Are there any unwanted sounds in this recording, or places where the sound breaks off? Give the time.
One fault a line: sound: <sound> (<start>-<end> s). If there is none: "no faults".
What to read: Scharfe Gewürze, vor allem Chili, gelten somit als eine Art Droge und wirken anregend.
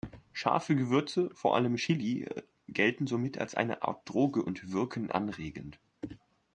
no faults